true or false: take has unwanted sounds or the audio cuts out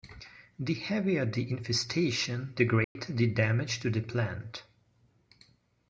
true